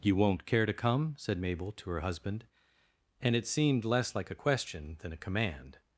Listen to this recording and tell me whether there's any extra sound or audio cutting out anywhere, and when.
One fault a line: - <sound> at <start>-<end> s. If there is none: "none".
none